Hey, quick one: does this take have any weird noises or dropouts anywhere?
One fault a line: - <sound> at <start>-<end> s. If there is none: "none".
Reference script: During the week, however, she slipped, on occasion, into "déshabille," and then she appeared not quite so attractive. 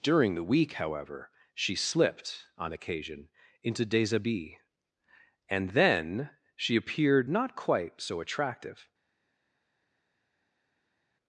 none